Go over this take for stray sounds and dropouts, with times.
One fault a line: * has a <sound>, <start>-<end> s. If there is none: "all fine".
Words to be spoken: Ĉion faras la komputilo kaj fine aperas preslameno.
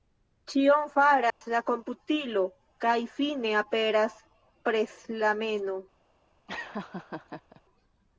* has a dropout, 1.3-1.4 s
* has a laugh, 6.5-7.6 s